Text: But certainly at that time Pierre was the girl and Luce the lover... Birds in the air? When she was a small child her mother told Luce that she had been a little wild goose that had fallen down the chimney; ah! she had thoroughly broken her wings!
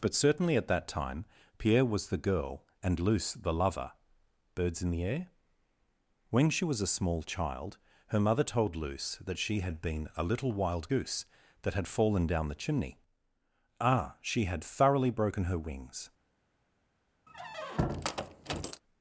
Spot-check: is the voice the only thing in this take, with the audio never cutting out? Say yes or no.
no